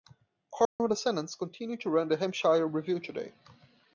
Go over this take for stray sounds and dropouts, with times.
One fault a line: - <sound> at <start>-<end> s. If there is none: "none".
- dropout at 0.6-0.8 s